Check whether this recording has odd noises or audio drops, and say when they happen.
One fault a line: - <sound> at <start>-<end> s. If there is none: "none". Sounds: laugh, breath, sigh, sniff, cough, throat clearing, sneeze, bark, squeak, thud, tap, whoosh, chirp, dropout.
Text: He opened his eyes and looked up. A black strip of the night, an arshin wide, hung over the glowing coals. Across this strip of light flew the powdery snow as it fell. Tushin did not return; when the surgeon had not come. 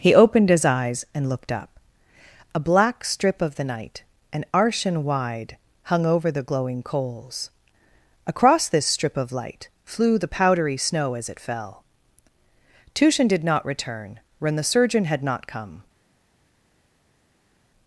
none